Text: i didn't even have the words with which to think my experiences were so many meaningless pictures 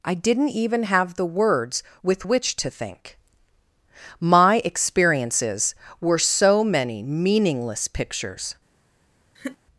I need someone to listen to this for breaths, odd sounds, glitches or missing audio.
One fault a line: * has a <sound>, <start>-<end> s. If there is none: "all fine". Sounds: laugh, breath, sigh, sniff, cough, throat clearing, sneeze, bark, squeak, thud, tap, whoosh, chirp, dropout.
* has a laugh, 9.3-9.6 s